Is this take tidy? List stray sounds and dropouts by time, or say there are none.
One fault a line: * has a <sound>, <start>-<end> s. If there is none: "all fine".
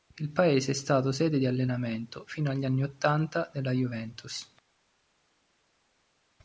all fine